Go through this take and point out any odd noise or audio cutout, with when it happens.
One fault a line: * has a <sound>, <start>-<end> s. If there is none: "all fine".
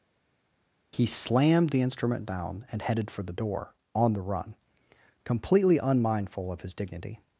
all fine